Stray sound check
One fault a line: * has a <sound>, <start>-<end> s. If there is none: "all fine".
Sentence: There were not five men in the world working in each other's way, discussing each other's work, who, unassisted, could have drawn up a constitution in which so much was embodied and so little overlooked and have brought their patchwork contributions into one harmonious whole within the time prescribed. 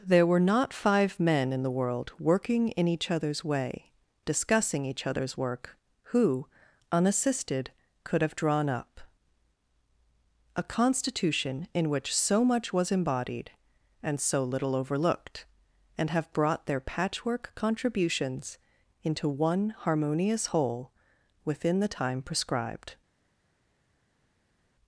all fine